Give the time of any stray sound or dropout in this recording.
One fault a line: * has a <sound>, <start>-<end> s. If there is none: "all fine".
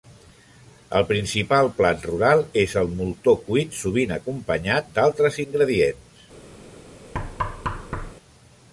* has a thud, 7.1-8.1 s